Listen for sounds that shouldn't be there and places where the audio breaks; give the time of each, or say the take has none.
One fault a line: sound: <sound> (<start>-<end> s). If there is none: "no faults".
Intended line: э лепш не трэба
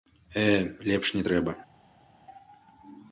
no faults